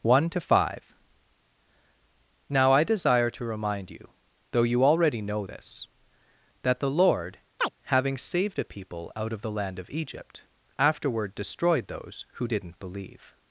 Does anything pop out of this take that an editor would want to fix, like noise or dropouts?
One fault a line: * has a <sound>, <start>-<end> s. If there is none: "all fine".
* has a chirp, 7.6-7.7 s